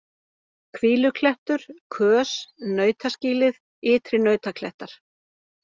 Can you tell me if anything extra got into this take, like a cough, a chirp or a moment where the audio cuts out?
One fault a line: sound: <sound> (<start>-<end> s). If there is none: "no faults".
no faults